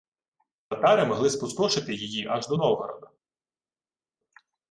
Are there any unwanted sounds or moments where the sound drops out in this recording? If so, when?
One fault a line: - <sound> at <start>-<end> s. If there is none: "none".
none